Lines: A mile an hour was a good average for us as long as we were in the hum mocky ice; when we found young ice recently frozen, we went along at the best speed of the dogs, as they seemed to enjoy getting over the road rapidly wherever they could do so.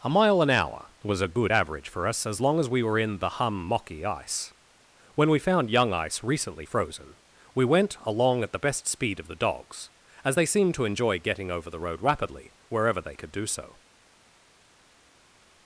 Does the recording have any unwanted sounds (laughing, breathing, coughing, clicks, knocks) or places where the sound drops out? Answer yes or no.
no